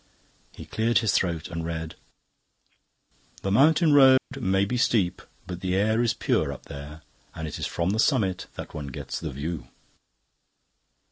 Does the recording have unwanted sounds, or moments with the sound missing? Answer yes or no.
yes